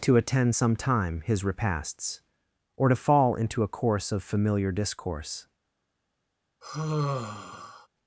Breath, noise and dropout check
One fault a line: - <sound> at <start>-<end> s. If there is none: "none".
- sigh at 6.6-7.9 s